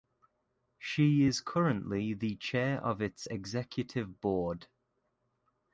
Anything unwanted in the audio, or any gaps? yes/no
no